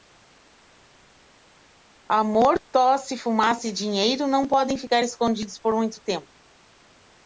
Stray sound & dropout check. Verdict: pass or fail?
pass